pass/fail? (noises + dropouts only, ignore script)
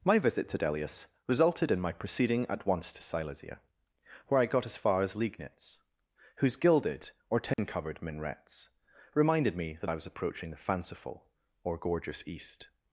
fail